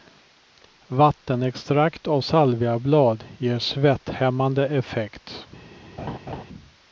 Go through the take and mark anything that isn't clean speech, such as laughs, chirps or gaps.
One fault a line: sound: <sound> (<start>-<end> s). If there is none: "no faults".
sound: laugh (6.0-6.4 s)